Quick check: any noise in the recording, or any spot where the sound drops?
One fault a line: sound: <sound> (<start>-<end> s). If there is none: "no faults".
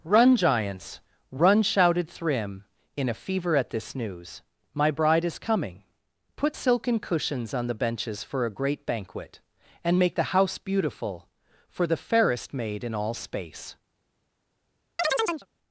sound: chirp (15.0-15.5 s)